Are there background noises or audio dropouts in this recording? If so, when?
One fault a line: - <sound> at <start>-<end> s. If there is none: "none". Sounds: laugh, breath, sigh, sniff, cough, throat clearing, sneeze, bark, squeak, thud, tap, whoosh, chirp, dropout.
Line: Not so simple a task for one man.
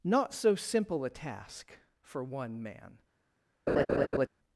- laugh at 3.7-4.3 s